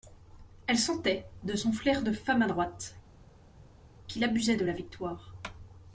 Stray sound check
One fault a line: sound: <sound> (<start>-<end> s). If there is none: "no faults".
no faults